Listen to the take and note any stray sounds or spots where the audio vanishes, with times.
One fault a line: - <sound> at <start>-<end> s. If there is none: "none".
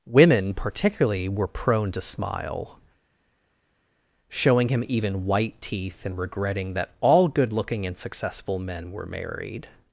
none